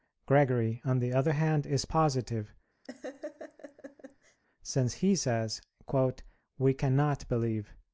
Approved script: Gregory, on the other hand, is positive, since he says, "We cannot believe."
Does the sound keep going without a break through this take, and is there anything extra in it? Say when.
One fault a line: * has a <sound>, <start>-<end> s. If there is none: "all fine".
* has a laugh, 2.8-4.4 s